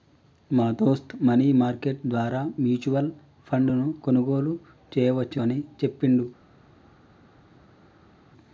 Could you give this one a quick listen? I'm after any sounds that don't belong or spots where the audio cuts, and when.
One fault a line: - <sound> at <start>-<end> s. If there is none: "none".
none